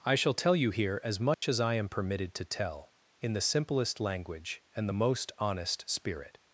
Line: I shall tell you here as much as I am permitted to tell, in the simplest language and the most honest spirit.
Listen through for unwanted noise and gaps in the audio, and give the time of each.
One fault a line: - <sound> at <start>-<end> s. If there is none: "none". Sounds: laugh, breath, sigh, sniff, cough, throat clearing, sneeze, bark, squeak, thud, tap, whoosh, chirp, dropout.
- dropout at 1.3-1.4 s